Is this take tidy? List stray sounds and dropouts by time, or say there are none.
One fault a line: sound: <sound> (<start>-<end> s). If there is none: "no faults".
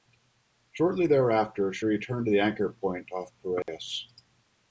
sound: dropout (3.6-3.7 s)